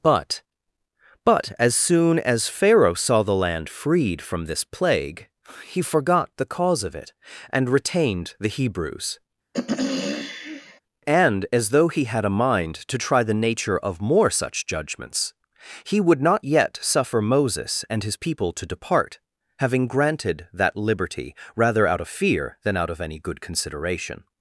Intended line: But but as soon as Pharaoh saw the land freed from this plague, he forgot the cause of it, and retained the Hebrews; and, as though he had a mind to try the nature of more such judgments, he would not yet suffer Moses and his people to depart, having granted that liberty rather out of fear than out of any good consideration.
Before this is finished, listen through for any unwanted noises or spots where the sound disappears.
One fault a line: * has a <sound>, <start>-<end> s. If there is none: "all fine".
* has a throat clearing, 9.5-10.8 s